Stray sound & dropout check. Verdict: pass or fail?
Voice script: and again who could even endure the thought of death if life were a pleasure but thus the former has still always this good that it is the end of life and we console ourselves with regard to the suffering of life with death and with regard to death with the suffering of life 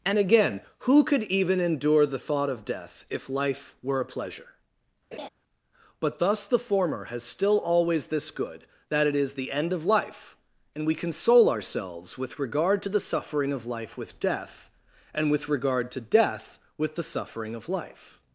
fail